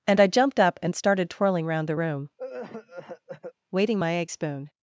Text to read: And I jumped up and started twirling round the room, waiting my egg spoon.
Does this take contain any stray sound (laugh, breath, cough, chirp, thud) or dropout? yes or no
yes